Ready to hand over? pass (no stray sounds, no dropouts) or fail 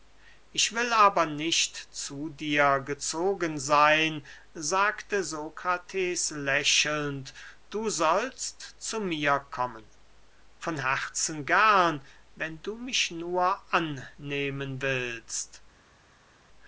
pass